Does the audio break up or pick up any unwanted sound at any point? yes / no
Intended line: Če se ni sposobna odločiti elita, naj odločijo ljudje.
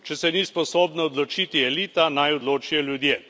no